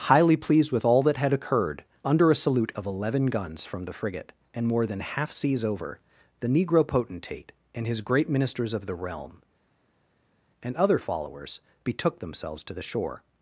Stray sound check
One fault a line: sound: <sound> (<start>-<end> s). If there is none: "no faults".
no faults